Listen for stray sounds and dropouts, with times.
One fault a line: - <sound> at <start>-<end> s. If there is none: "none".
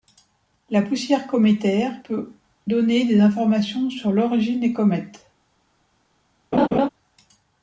- laugh at 6.5-6.9 s